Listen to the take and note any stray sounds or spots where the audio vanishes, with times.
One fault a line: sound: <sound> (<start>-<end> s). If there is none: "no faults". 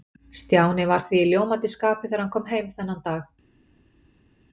no faults